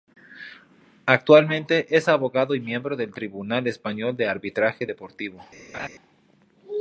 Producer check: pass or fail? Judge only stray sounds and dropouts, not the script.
fail